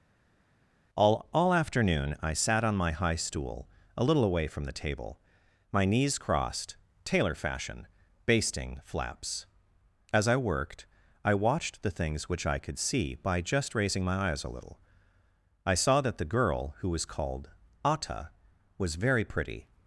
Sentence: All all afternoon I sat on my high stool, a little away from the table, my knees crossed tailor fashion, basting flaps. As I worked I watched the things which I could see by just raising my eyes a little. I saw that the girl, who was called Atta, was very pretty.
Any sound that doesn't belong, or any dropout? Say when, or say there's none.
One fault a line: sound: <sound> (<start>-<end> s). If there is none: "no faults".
no faults